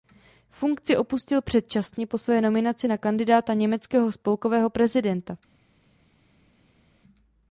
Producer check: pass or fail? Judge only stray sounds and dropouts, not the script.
pass